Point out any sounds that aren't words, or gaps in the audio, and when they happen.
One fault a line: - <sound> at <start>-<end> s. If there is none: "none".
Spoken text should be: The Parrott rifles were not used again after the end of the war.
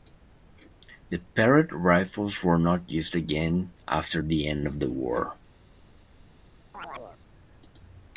- chirp at 6.7-7.2 s